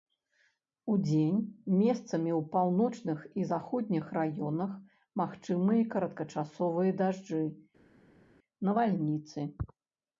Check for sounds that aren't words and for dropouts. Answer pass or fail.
pass